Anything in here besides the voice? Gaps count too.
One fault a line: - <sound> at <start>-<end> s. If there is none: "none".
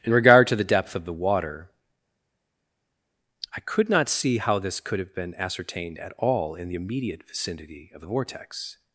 none